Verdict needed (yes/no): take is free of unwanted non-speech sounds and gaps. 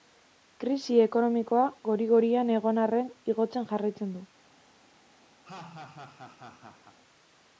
no